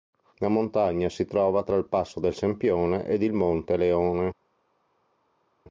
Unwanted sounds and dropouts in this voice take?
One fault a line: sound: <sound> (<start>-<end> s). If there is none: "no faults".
no faults